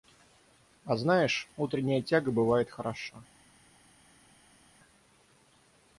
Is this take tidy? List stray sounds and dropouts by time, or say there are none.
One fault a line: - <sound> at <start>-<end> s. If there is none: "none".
none